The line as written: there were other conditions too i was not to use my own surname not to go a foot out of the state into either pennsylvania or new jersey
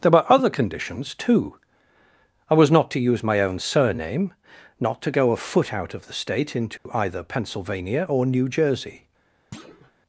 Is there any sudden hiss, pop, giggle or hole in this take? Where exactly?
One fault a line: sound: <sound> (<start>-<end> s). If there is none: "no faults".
sound: dropout (6.8-6.9 s)
sound: thud (9.5-9.9 s)